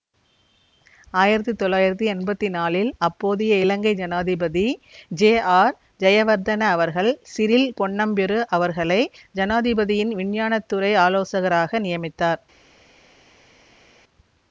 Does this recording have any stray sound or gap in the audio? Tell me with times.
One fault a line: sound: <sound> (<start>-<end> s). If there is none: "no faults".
no faults